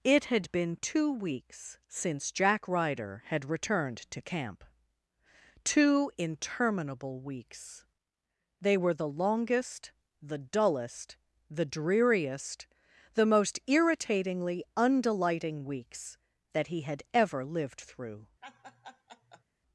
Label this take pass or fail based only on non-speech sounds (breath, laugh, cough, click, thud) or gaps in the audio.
fail